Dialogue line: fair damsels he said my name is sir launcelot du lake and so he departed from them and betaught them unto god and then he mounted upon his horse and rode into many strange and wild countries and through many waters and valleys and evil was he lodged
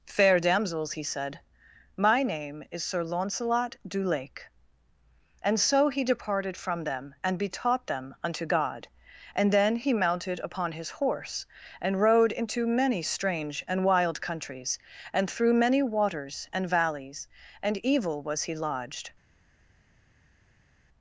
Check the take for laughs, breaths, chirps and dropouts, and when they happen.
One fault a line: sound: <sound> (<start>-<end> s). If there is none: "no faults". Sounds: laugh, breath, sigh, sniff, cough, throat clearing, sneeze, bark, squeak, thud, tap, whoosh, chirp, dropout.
no faults